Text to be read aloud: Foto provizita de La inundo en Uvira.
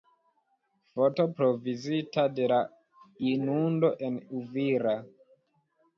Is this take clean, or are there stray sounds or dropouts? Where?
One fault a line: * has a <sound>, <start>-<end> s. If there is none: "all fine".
all fine